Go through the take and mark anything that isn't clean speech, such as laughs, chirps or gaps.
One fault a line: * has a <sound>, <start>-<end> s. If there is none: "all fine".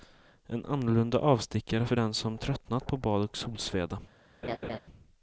* has a laugh, 4.4-4.8 s